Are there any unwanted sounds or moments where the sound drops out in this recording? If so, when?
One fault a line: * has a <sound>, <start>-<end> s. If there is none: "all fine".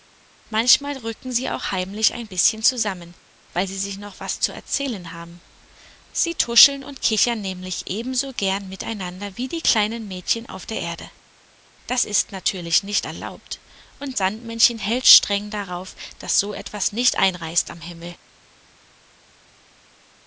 all fine